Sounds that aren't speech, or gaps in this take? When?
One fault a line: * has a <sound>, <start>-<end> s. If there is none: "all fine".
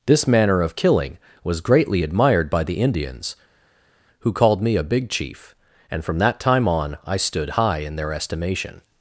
all fine